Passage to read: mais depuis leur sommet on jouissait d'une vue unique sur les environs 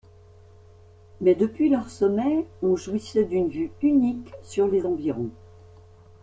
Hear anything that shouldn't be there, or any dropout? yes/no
no